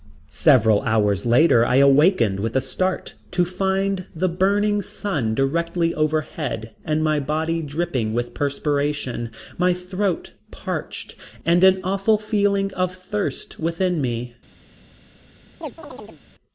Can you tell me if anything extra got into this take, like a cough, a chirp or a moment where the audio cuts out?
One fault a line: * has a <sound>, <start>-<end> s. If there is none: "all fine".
* has a chirp, 15.6-16.2 s